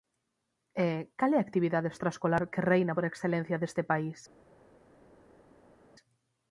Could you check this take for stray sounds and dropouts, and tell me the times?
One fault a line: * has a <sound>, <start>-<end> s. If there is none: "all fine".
all fine